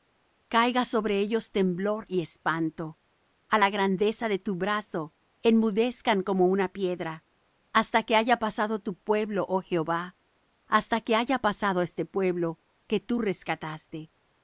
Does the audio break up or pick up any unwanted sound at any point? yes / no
no